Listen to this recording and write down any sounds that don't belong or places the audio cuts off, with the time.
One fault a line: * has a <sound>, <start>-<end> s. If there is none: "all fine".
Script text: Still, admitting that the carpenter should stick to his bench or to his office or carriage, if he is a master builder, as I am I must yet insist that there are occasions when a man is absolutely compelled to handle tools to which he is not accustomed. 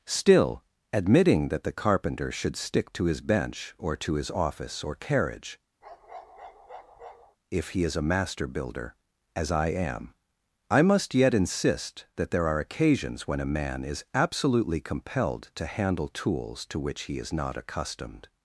* has a bark, 5.8-7.4 s